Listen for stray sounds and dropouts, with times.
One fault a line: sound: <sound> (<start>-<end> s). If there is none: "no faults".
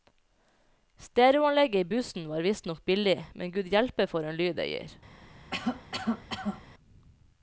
sound: cough (5.5-6.6 s)